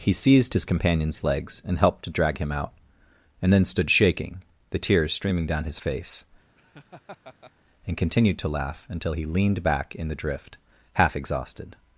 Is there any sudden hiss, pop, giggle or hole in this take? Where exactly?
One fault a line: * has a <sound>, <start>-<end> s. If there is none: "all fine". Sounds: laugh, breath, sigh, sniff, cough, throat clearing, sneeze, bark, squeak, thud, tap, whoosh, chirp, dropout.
* has a laugh, 6.6-7.5 s